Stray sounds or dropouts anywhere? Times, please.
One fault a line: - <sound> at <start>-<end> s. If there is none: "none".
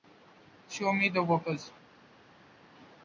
none